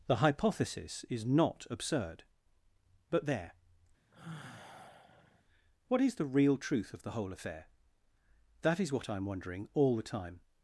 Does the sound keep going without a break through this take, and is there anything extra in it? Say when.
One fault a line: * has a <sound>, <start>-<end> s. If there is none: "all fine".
* has a sigh, 4.1-5.4 s